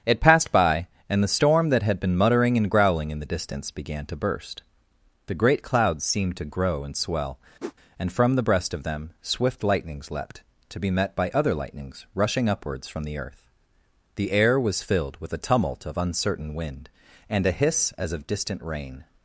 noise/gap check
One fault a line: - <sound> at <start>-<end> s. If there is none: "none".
- whoosh at 7.6-7.7 s